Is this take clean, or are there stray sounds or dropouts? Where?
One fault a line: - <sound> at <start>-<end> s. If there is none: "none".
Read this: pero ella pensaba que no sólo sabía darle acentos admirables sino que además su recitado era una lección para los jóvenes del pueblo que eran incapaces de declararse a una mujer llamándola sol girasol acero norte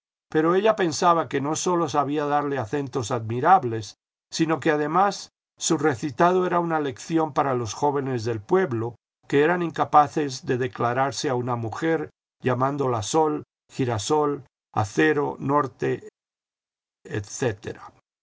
none